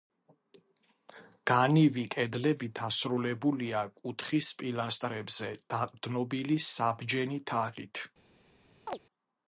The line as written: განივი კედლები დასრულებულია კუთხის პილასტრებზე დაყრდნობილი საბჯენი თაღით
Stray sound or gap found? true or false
true